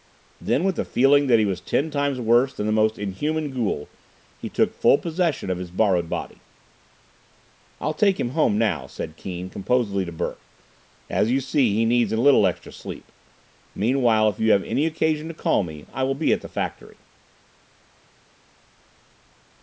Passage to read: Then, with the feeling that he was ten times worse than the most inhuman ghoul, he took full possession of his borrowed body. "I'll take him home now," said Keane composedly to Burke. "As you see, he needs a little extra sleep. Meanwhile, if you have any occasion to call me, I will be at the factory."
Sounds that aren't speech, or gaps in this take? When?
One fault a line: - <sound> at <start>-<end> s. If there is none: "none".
none